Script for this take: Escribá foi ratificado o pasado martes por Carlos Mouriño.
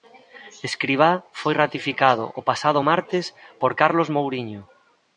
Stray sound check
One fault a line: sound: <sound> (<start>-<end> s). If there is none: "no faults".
no faults